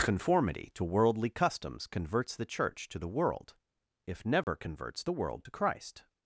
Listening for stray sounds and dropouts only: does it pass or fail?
fail